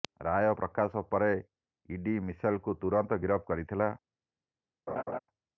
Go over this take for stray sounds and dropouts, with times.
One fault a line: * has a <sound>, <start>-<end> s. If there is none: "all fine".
* has a laugh, 4.9-5.2 s